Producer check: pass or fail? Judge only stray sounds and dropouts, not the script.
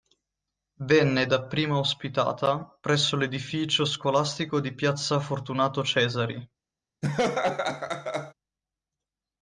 fail